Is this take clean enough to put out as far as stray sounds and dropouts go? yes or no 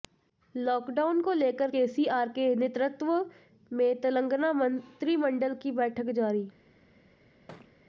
no